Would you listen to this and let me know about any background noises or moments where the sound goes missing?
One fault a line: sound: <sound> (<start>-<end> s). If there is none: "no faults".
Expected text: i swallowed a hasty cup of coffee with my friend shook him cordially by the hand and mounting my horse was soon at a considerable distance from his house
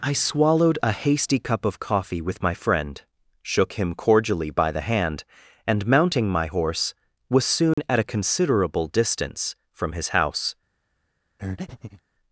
sound: dropout (7.7-7.8 s)
sound: breath (11.4-12.0 s)